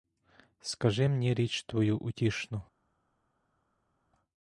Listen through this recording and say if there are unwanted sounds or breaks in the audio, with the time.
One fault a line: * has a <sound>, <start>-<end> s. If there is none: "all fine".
all fine